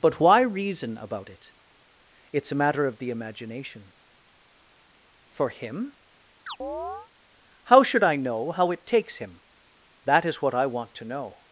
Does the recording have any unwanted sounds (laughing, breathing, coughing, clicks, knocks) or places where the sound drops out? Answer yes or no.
yes